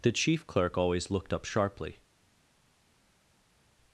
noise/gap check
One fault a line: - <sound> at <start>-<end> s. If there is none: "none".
none